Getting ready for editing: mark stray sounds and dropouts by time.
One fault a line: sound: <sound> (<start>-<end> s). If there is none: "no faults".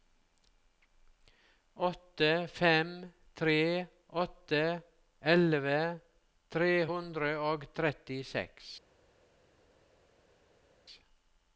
no faults